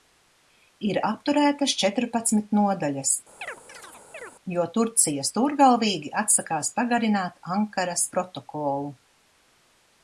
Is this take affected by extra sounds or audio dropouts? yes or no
yes